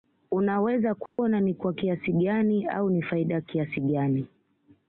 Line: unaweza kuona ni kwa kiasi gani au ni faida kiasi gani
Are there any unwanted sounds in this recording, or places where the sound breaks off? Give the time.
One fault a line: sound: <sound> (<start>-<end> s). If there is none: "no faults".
sound: dropout (1.1-1.2 s)